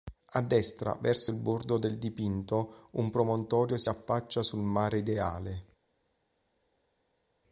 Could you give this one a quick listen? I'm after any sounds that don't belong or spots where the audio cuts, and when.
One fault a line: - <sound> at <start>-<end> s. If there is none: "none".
none